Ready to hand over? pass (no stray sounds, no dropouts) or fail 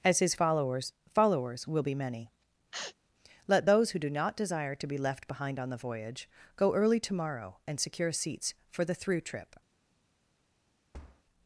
fail